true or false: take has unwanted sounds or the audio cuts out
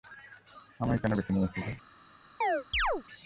true